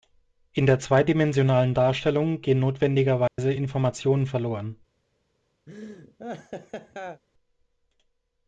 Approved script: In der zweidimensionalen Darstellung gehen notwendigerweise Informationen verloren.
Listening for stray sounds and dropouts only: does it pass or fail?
fail